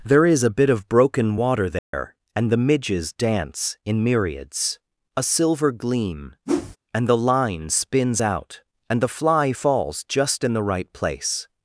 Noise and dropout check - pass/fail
fail